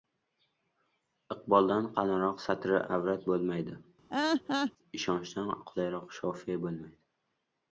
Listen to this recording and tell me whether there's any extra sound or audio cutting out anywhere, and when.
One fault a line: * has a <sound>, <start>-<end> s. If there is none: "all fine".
* has a laugh, 4.1-4.7 s